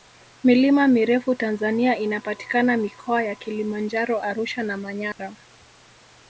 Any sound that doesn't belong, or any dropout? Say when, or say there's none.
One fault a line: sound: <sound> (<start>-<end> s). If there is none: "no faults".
sound: dropout (5.1-5.2 s)